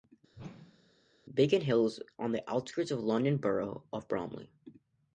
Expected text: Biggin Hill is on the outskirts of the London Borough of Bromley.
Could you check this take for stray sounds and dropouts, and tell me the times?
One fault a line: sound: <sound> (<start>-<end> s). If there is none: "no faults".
sound: whoosh (0.3-1.1 s)